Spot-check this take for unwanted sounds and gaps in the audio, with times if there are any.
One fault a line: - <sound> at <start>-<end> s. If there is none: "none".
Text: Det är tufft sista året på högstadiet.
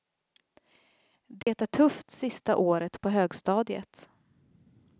- dropout at 1.4-1.5 s